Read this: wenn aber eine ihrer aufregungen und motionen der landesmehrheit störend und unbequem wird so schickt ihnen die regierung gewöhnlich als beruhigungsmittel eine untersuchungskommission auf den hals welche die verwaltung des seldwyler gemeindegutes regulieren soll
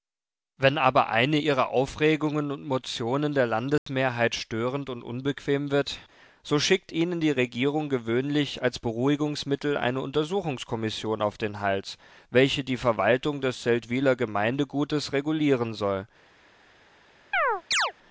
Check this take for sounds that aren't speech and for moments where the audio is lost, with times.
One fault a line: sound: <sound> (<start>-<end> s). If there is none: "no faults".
sound: dropout (3.8-3.9 s)
sound: chirp (17.3-17.9 s)